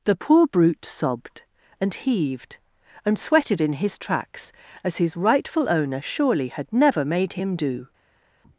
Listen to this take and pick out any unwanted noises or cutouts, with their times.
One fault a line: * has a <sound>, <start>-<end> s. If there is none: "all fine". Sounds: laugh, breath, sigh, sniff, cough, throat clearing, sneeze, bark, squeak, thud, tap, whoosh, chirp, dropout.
all fine